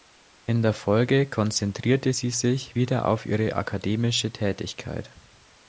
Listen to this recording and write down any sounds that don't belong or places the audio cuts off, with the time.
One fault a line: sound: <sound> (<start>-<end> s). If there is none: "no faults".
no faults